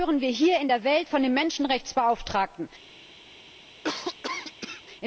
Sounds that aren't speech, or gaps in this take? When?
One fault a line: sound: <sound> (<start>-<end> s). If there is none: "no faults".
sound: cough (3.8-4.8 s)